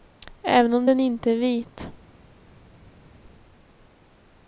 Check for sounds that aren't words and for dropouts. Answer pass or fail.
pass